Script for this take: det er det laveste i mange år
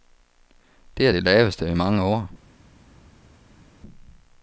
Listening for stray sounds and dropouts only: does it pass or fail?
pass